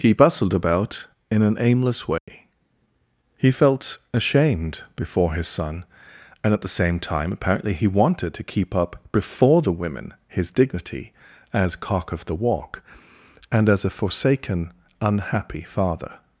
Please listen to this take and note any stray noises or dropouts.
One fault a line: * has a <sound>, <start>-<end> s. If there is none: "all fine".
* has a dropout, 2.2-2.3 s